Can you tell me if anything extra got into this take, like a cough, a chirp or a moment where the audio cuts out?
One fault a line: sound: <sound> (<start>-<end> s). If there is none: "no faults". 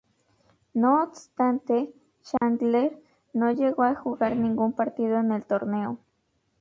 sound: dropout (2.4-2.4 s)